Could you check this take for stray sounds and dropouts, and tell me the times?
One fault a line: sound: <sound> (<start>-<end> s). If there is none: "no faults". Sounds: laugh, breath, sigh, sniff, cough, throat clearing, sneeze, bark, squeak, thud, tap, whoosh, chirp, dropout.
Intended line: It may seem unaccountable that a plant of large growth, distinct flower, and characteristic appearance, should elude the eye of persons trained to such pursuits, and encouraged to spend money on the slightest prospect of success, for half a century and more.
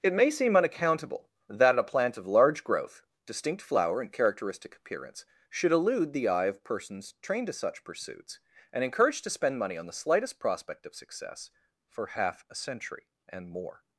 no faults